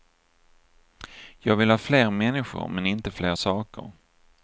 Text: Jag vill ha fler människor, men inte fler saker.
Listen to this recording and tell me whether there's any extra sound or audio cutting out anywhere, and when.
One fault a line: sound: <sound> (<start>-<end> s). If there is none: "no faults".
no faults